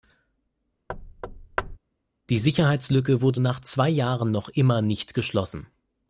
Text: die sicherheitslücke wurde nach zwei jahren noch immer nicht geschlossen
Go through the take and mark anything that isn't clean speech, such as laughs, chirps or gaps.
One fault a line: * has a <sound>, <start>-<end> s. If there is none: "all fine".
* has a thud, 0.9-1.8 s